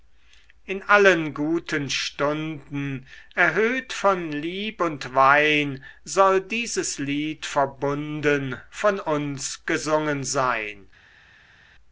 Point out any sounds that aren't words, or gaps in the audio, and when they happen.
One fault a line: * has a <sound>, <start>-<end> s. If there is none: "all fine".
all fine